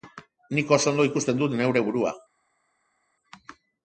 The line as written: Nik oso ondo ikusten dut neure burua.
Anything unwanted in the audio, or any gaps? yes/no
no